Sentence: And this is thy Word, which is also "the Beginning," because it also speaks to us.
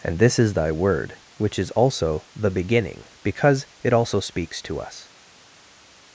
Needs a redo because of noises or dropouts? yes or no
no